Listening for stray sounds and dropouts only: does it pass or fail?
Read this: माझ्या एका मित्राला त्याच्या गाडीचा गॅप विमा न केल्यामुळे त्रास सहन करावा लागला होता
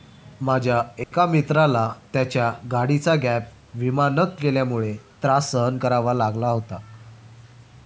fail